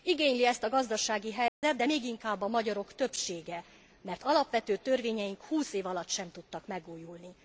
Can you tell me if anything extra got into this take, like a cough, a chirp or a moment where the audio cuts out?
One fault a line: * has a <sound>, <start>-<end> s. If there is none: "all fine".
* has a dropout, 1.5-1.6 s